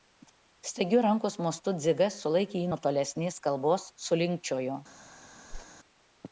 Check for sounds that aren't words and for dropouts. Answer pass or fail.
fail